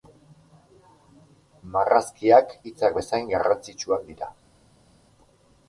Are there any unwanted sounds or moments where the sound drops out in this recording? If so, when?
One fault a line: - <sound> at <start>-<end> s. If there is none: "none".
none